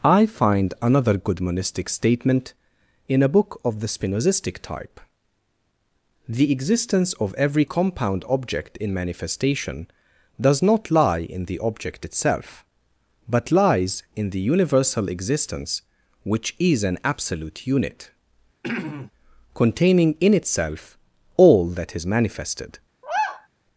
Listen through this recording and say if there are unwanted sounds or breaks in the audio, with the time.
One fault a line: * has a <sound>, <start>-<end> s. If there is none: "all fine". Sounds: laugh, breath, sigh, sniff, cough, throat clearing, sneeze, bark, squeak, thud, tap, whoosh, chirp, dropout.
* has a throat clearing, 18.6-19.1 s
* has a sigh, 23.0-23.5 s